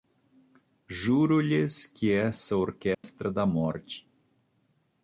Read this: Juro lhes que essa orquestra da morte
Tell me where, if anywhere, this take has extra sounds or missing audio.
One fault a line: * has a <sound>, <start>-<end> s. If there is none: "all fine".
* has a dropout, 2.9-3.0 s